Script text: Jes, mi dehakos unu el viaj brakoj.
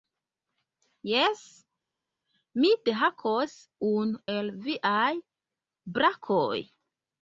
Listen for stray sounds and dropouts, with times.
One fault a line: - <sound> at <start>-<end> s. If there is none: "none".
none